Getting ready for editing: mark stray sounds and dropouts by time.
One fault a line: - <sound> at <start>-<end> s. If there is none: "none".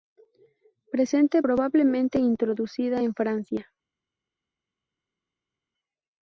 none